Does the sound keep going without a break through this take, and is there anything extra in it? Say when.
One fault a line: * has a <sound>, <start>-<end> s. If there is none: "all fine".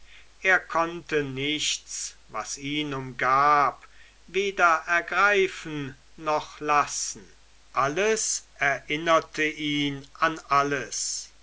all fine